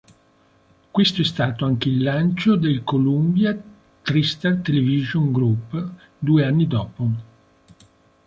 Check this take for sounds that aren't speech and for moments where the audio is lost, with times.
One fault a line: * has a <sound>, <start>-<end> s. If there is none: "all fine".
all fine